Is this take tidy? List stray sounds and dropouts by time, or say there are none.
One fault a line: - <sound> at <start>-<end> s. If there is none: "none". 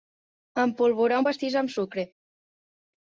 none